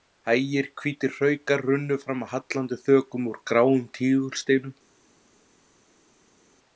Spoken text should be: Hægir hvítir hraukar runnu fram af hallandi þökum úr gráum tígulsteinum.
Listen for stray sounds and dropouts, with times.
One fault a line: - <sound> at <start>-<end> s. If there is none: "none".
none